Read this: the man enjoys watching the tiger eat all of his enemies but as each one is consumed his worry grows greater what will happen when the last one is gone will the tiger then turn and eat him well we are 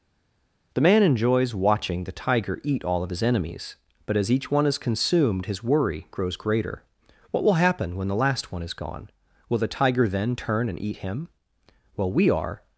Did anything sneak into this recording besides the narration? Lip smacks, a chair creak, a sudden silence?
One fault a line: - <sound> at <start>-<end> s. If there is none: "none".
none